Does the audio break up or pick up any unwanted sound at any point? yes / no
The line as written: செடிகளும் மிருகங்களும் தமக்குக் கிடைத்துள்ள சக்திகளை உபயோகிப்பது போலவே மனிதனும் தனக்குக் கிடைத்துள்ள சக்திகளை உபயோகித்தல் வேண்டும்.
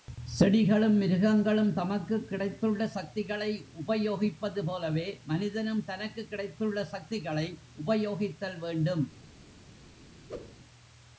yes